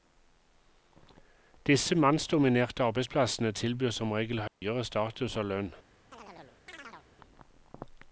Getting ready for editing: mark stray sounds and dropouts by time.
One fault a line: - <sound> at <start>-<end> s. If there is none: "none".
- dropout at 4.5-4.6 s
- chirp at 6.1-7.1 s